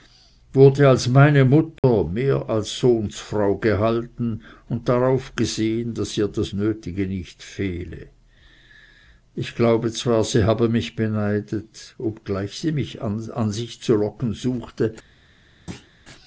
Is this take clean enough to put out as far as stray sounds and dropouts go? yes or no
no